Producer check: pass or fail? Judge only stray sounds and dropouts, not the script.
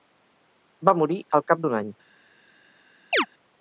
fail